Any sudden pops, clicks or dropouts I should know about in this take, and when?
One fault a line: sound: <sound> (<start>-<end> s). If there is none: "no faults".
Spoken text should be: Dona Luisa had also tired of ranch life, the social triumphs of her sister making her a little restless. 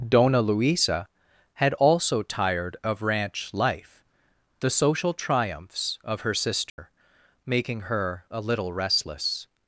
sound: dropout (6.7-6.8 s)